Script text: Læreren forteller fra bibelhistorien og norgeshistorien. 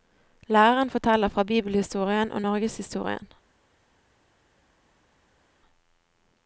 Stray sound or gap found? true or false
false